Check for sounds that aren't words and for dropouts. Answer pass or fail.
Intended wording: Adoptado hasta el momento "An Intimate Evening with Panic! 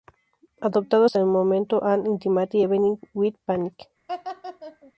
fail